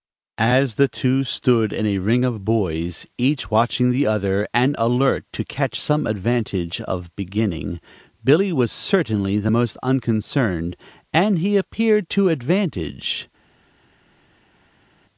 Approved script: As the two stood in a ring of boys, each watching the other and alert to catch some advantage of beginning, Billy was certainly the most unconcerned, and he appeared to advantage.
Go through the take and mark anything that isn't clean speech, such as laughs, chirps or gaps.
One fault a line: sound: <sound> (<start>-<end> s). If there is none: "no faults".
no faults